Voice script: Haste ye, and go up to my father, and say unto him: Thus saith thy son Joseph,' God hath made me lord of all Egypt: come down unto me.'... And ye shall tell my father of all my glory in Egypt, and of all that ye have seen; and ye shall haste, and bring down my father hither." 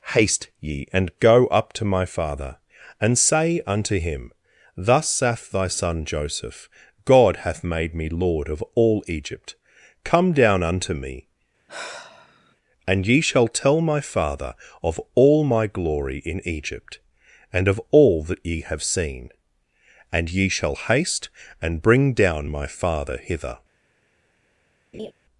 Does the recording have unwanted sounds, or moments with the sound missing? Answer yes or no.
yes